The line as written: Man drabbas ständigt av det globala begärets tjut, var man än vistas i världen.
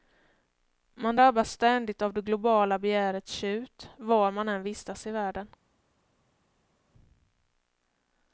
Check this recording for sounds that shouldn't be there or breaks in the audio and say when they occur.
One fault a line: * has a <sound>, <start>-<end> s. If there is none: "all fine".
all fine